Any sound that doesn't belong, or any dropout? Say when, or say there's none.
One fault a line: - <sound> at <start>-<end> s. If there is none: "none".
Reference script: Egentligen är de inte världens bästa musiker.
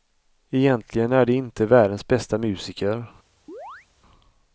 - chirp at 3.5-3.9 s